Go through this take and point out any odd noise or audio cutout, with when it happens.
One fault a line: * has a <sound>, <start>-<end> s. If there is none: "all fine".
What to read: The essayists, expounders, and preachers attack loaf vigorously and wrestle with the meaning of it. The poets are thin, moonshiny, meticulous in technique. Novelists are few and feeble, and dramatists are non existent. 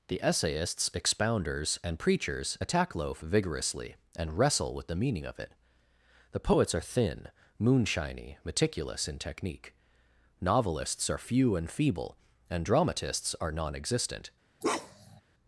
* has a bark, 14.6-15.2 s